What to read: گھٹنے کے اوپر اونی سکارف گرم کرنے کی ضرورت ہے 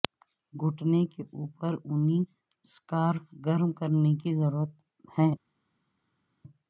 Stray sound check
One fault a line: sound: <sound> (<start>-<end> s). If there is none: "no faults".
no faults